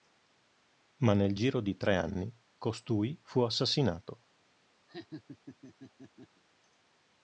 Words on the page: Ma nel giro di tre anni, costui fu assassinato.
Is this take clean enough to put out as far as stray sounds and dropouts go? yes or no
no